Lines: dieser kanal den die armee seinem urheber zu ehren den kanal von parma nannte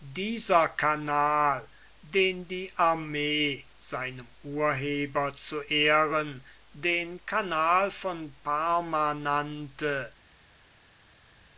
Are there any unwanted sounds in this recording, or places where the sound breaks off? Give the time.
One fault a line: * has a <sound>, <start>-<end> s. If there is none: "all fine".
all fine